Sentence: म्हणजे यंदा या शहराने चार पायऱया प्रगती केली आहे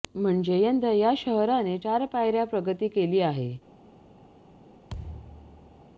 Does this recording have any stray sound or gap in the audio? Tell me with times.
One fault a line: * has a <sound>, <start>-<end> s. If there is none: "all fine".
* has a thud, 4.9-5.9 s